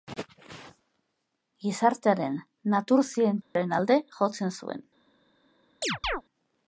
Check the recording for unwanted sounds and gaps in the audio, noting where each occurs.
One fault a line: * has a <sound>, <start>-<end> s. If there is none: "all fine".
* has a dropout, 3.4-3.6 s
* has a chirp, 5.8-6.2 s